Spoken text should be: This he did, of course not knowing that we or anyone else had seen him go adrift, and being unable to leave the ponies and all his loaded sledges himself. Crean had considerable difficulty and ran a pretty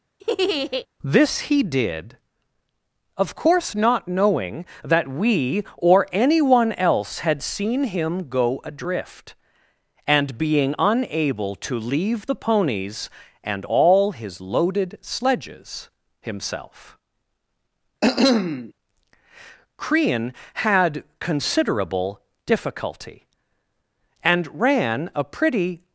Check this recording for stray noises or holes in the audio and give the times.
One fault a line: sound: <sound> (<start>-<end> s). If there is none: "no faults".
sound: laugh (0.2-0.9 s)
sound: cough (18.0-18.7 s)